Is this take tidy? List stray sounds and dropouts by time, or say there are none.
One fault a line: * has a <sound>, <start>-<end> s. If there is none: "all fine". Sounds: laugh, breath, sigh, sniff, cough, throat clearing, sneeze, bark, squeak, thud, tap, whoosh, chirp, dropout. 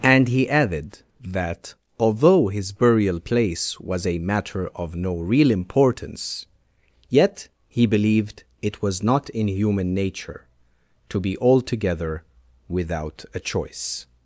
all fine